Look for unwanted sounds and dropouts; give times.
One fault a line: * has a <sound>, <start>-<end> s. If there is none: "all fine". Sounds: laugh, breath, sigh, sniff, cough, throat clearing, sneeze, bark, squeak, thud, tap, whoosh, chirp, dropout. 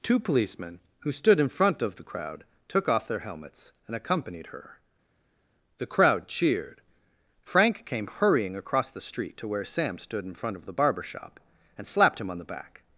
all fine